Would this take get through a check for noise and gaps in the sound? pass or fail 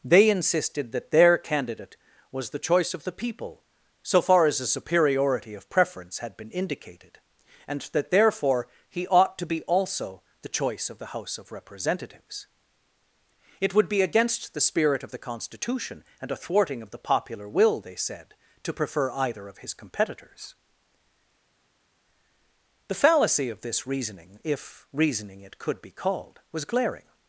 pass